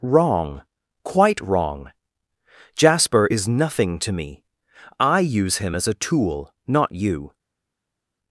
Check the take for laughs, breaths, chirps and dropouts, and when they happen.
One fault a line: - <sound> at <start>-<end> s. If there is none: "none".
none